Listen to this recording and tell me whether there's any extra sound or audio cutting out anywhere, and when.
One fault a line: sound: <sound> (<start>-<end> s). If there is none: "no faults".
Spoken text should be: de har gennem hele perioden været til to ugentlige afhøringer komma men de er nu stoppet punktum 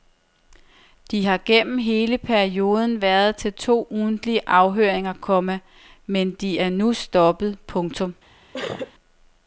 sound: sneeze (8.5-8.9 s)